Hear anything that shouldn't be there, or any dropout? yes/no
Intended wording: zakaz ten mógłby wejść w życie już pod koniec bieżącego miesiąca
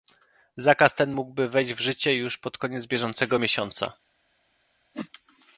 yes